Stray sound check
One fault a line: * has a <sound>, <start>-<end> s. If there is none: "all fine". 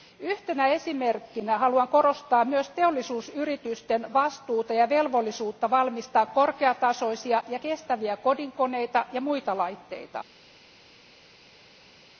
all fine